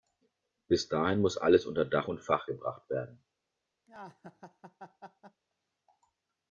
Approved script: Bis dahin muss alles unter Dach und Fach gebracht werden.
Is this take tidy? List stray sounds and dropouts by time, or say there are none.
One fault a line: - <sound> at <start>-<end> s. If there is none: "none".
- laugh at 3.9-5.4 s